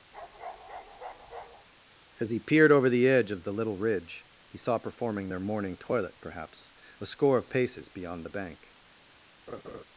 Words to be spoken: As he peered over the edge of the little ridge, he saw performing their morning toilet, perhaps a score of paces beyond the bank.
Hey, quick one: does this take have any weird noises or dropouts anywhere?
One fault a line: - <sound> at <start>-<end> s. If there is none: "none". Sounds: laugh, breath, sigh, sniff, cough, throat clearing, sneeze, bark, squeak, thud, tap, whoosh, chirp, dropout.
- bark at 0.1-1.7 s
- laugh at 9.5-9.8 s